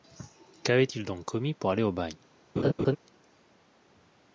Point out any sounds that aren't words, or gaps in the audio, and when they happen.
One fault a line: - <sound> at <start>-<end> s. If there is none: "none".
- laugh at 2.6-3.0 s